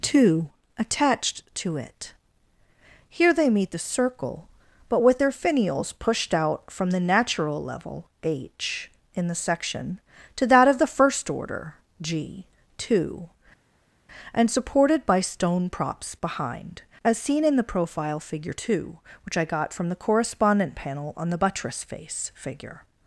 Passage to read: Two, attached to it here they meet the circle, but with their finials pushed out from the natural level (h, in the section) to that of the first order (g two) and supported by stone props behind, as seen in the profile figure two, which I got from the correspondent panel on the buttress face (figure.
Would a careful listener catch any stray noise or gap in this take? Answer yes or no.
no